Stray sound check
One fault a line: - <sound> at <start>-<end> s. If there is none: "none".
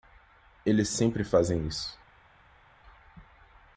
none